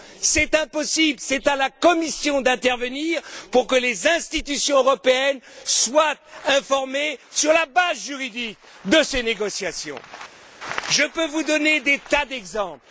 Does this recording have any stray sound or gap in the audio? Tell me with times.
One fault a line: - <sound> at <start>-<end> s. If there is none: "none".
none